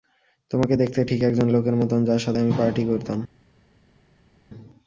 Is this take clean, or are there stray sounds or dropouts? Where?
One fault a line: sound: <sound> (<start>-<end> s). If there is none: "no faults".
no faults